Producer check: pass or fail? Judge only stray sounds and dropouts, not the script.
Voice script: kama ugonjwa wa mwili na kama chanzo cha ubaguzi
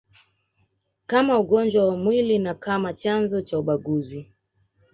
pass